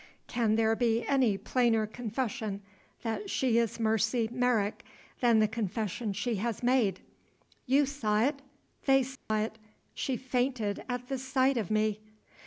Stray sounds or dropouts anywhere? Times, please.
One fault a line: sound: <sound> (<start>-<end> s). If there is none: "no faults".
sound: dropout (9.2-9.3 s)